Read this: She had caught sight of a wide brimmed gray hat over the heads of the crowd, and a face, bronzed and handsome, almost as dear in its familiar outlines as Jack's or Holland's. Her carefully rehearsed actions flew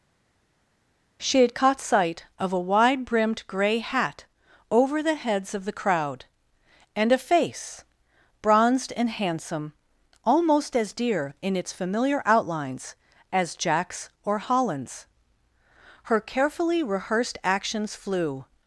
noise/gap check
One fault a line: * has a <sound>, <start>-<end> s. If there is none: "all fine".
all fine